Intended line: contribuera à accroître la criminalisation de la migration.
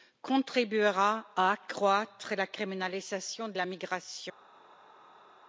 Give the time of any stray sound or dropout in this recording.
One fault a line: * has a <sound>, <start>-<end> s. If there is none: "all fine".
all fine